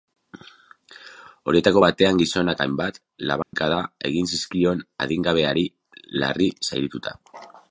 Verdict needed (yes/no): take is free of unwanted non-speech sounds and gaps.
no